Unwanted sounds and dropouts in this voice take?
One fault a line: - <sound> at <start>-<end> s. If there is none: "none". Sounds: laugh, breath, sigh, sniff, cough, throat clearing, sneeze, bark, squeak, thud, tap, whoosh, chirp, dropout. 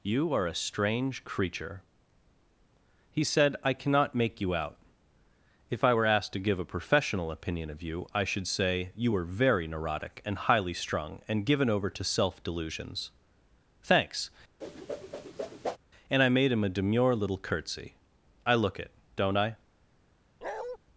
- whoosh at 14.6-15.8 s
- bark at 20.4-20.8 s